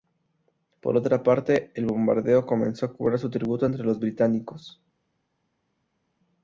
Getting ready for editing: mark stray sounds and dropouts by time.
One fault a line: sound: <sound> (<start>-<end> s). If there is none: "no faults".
no faults